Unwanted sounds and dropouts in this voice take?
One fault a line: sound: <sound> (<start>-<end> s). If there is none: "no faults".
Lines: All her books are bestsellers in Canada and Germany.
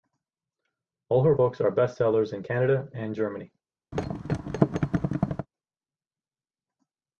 sound: thud (3.9-5.5 s)